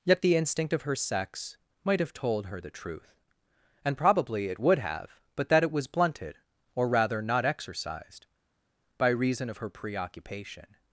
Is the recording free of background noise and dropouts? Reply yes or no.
yes